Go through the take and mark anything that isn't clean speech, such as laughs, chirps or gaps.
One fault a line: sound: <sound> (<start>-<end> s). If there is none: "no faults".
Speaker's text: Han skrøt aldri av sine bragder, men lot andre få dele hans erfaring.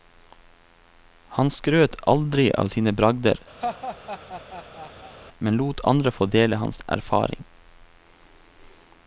sound: laugh (3.6-5.2 s)